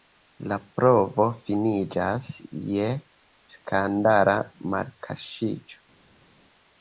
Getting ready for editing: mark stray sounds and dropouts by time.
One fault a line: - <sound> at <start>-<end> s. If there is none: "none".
none